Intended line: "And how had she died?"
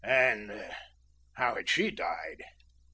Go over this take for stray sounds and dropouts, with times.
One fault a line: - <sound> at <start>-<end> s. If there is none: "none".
none